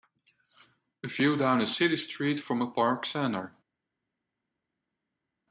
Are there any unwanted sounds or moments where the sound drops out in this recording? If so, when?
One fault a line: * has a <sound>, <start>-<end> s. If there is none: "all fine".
all fine